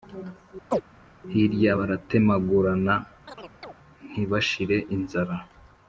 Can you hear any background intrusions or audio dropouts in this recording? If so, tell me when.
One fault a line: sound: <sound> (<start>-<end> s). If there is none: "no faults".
sound: chirp (0.7-0.8 s)
sound: chirp (3.3-3.7 s)